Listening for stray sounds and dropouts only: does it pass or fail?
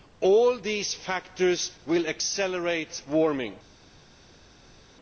pass